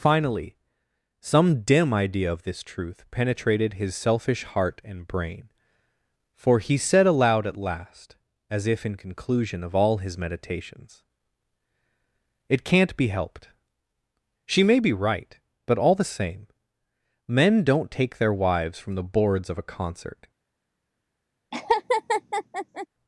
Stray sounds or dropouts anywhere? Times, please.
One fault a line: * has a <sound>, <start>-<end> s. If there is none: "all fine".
* has a laugh, 21.5-22.9 s